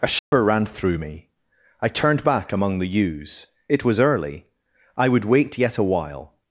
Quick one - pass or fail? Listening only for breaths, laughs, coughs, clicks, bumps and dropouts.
fail